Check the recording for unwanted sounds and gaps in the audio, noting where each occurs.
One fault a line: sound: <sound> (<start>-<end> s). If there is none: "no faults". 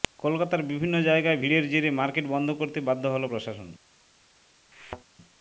sound: thud (4.7-5.0 s)